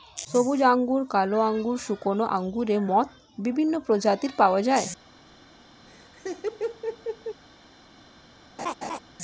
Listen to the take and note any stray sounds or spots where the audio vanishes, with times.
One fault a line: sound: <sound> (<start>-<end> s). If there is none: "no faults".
sound: laugh (5.9-7.4 s)
sound: laugh (8.6-9.0 s)